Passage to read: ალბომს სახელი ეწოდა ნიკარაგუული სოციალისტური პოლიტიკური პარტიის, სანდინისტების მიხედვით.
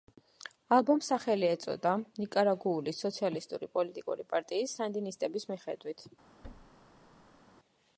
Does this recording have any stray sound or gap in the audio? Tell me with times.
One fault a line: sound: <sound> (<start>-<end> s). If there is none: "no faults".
sound: thud (6.4-7.4 s)